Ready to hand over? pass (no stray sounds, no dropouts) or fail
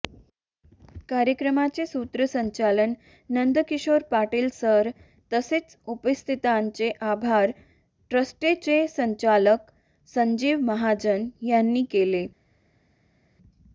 pass